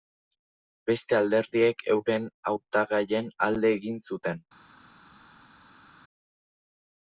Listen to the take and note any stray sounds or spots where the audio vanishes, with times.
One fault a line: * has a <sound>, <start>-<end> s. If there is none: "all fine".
all fine